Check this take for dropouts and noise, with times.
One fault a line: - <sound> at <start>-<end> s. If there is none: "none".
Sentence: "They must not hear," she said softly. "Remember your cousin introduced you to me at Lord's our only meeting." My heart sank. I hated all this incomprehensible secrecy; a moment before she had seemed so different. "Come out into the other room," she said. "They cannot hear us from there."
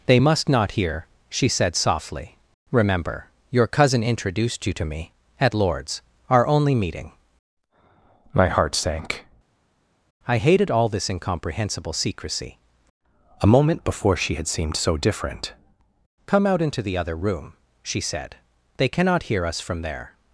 none